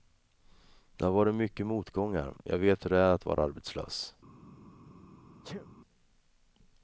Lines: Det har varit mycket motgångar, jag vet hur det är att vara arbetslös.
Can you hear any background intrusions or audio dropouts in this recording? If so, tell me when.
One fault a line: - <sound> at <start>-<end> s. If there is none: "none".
- sneeze at 5.4-5.7 s